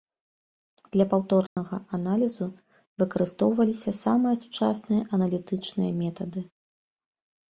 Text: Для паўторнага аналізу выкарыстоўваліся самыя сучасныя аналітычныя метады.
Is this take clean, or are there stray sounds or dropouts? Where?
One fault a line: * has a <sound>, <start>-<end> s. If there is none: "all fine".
* has a dropout, 1.5-1.6 s